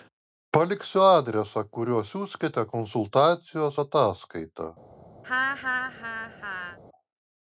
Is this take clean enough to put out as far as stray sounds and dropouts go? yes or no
no